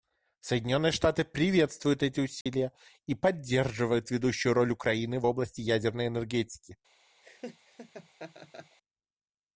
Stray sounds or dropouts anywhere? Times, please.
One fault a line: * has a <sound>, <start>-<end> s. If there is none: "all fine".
* has a dropout, 2.4-2.5 s
* has a laugh, 7.2-8.8 s